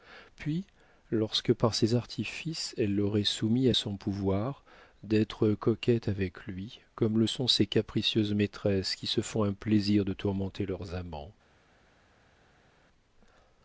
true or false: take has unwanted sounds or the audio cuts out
false